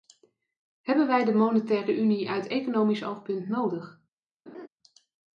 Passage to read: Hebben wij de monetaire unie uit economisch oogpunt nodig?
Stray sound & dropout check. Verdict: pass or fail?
fail